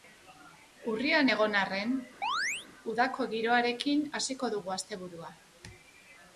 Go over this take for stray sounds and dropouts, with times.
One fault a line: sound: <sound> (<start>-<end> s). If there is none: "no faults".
sound: chirp (2.2-2.7 s)